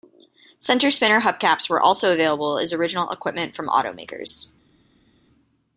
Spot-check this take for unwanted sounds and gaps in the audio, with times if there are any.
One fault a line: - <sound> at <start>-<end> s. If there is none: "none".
none